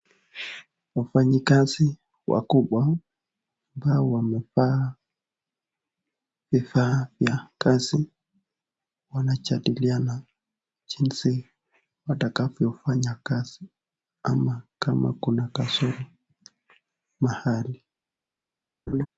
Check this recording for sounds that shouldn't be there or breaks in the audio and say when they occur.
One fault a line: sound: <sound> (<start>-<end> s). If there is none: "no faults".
sound: laugh (18.9-19.1 s)